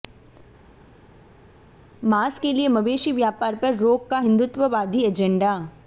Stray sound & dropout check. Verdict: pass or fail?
pass